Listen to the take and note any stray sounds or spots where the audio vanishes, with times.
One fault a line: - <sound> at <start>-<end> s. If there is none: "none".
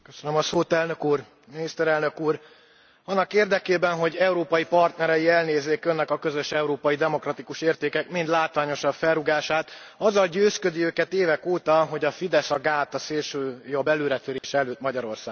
- dropout at 14.4-14.4 s